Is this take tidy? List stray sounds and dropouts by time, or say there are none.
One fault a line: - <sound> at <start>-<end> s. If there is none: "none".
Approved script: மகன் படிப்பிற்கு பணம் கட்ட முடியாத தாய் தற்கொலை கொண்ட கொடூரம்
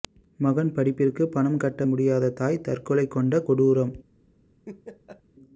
- laugh at 4.7-5.2 s